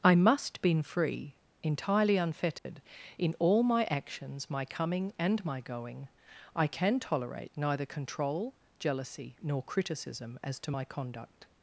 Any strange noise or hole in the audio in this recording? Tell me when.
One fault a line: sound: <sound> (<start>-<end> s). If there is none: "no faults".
sound: dropout (2.6-2.7 s)